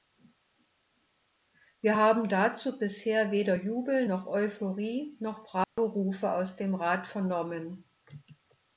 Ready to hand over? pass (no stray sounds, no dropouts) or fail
fail